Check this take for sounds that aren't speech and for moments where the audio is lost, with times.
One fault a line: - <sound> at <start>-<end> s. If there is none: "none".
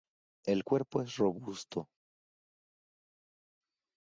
none